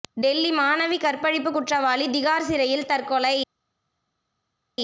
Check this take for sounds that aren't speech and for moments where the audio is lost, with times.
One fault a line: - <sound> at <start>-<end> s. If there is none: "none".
none